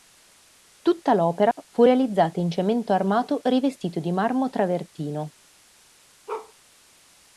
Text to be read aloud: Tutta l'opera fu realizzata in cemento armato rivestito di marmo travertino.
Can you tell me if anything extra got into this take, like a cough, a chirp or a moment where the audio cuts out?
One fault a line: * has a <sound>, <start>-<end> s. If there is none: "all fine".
* has a dropout, 1.5-1.6 s
* has a bark, 6.3-6.5 s